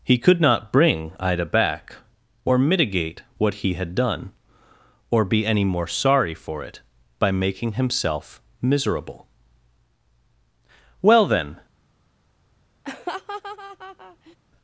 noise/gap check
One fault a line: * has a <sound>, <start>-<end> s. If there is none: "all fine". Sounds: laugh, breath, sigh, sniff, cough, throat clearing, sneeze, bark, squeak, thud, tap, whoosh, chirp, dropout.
* has a laugh, 12.8-14.4 s